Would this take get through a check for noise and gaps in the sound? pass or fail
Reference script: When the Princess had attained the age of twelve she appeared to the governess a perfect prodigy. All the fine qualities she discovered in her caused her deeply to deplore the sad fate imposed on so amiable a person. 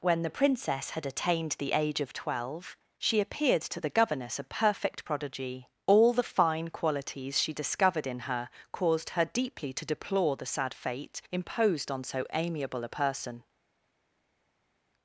pass